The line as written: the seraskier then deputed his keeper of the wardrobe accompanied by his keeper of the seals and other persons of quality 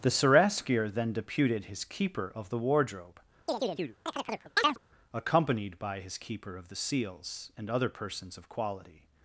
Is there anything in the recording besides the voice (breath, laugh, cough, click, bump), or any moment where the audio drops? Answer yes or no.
yes